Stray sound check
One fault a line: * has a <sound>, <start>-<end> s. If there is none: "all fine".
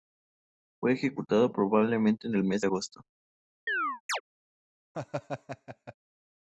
* has a chirp, 3.7-4.2 s
* has a laugh, 4.9-5.9 s